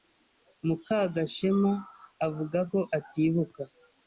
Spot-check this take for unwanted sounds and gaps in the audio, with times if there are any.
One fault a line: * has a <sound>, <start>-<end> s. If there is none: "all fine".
all fine